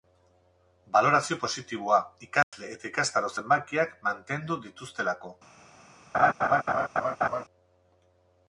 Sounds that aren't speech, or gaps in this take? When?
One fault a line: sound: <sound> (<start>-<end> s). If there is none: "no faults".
sound: dropout (2.4-2.5 s)
sound: laugh (6.1-7.4 s)